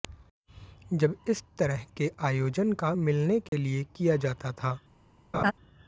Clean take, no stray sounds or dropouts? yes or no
no